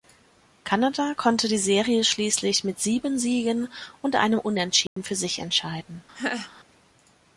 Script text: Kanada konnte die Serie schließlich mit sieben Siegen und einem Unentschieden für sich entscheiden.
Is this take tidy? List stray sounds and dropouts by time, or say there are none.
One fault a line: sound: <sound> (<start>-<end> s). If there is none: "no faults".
sound: dropout (4.9-5.0 s)
sound: laugh (6.1-6.5 s)